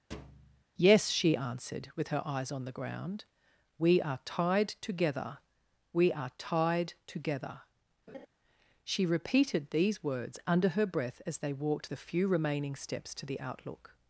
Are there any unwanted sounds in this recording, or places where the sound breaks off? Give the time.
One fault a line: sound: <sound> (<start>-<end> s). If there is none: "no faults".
sound: thud (0.1-0.7 s)
sound: laugh (8.1-8.3 s)